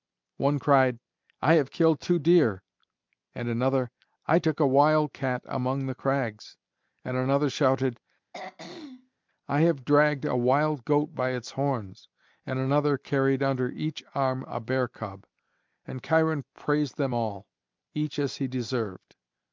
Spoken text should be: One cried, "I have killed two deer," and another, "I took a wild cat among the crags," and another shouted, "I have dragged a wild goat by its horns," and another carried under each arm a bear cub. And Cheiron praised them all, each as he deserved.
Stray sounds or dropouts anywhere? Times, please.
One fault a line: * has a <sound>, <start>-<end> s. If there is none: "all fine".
* has a throat clearing, 8.3-9.2 s